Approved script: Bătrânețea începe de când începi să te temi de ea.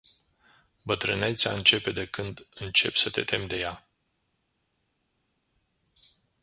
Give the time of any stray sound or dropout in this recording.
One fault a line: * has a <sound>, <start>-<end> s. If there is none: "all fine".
all fine